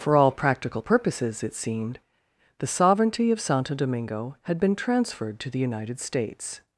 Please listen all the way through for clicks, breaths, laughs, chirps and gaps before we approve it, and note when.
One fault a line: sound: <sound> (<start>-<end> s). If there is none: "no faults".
no faults